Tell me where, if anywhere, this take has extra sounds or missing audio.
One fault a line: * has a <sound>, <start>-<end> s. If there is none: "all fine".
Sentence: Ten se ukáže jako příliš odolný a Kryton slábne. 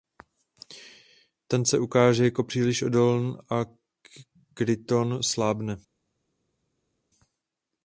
all fine